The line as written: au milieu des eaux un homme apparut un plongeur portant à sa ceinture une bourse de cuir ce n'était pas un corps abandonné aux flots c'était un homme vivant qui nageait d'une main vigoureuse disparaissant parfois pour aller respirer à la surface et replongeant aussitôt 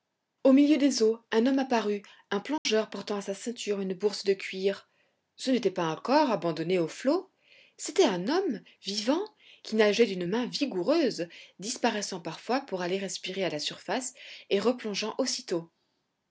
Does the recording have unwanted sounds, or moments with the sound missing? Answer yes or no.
yes